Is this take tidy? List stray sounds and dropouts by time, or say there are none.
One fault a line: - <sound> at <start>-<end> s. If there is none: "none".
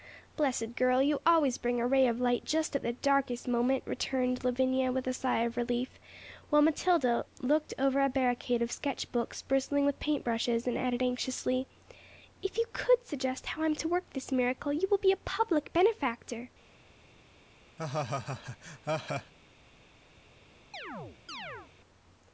- laugh at 17.8-19.3 s
- chirp at 20.7-21.7 s